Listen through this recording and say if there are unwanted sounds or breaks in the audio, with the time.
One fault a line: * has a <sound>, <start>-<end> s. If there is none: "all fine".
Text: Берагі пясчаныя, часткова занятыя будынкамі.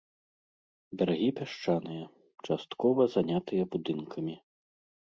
all fine